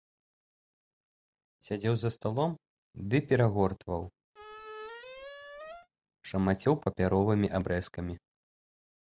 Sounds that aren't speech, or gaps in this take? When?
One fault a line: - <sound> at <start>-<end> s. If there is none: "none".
- squeak at 4.3-5.9 s